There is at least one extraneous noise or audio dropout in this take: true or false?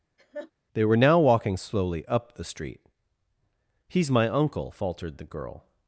true